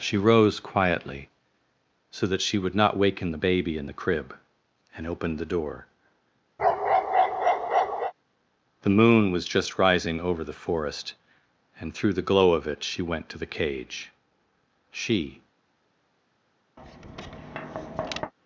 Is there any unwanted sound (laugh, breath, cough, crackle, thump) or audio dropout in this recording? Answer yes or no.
yes